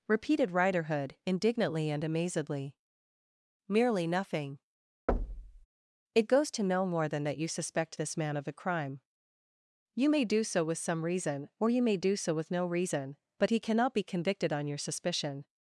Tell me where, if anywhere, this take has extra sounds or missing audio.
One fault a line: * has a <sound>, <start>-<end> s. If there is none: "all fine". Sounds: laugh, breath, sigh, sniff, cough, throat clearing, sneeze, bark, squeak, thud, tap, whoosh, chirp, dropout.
* has a thud, 5.1-5.7 s